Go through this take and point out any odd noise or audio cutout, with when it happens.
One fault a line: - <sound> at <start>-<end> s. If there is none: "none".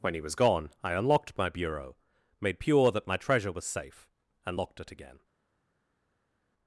none